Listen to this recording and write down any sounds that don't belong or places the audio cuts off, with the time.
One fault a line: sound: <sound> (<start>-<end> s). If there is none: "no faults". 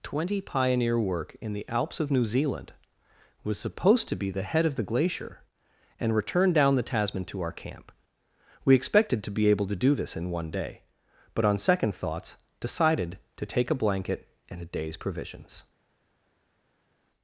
no faults